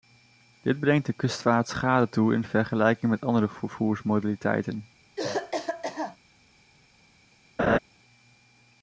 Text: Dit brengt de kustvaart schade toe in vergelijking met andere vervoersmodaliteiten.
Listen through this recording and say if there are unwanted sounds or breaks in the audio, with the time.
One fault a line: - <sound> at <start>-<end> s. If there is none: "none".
- cough at 5.2-6.2 s
- laugh at 7.6-7.8 s